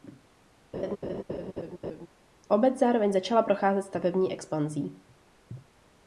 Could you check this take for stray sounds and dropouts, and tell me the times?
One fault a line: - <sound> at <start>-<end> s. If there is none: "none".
- laugh at 0.7-2.1 s